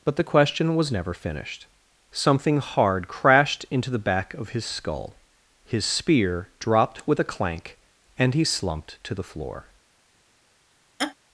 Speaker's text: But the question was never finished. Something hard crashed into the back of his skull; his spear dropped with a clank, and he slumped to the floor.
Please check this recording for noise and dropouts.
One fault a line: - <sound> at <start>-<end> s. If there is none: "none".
- laugh at 11.0-11.2 s